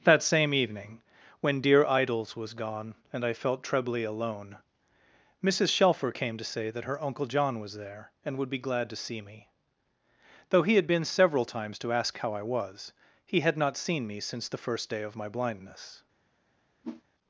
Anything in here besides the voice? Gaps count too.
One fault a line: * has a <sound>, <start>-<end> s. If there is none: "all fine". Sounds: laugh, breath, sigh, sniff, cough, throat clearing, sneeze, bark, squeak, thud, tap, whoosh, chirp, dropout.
* has a whoosh, 16.8-17.0 s